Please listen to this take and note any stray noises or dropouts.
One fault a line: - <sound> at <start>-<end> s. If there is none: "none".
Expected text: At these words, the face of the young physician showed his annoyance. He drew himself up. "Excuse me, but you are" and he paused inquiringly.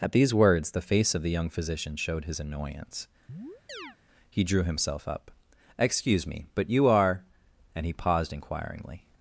- chirp at 3.3-4.0 s